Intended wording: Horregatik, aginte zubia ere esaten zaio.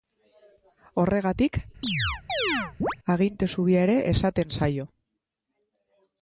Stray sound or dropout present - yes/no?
yes